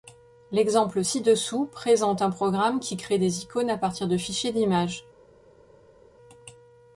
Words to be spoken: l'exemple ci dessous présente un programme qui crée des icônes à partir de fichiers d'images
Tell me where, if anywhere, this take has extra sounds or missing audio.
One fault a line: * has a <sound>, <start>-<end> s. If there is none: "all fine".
all fine